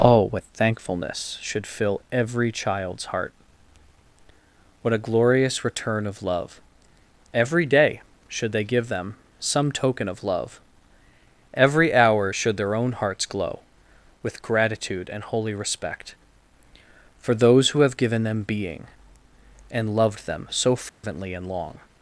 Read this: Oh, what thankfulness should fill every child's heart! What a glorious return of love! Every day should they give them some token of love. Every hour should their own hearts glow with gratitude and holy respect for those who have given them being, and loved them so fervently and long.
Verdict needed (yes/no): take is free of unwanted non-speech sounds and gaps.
no